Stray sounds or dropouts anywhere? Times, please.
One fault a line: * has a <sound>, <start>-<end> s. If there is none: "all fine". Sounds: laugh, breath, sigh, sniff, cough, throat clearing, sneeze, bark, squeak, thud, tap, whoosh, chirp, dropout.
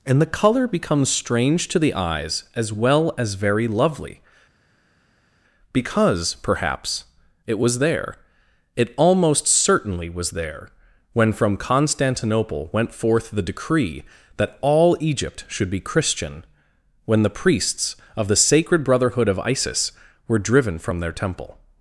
all fine